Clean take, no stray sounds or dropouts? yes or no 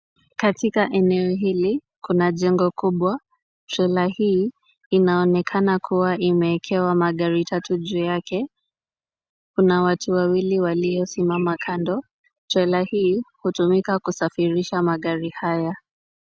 yes